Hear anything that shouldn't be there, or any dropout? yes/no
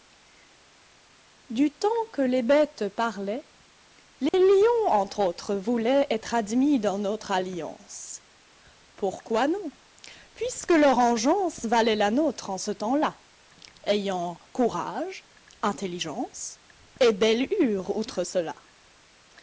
yes